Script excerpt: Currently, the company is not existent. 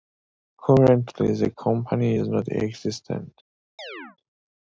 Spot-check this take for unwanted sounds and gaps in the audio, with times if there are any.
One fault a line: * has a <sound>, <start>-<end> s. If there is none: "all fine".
* has a chirp, 3.8-4.2 s